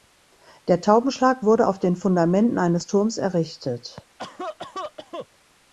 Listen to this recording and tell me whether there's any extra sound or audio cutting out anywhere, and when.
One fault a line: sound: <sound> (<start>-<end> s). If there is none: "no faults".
sound: cough (4.2-5.3 s)